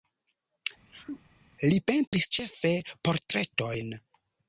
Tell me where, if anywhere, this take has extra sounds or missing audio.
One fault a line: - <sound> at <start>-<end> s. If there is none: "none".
- sneeze at 0.9-1.2 s
- dropout at 2.1-2.1 s